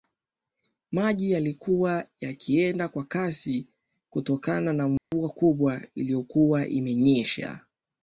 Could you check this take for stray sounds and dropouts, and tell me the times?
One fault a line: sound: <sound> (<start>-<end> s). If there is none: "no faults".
sound: dropout (5.0-5.1 s)